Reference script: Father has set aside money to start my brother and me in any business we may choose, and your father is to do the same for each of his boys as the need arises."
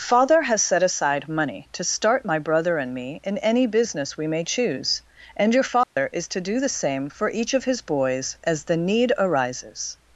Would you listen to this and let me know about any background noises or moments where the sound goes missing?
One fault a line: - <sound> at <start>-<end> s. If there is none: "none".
- dropout at 5.8-6.0 s